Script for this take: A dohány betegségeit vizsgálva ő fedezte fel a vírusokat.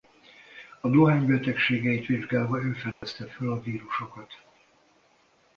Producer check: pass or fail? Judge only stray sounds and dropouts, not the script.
fail